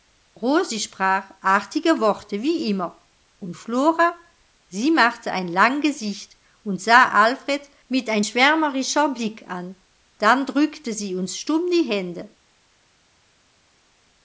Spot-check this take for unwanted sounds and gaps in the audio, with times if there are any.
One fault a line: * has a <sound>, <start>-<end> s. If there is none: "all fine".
all fine